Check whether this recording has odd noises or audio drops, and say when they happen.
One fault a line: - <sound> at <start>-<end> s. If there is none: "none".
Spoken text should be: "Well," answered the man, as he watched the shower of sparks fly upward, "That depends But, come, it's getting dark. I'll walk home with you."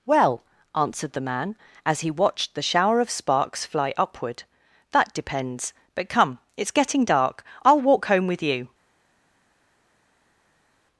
none